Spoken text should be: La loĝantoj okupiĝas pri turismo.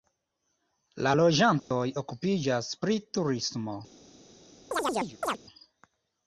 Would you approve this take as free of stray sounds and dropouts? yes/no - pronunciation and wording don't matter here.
no